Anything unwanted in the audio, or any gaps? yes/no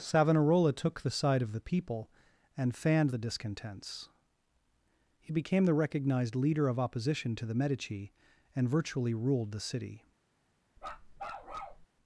yes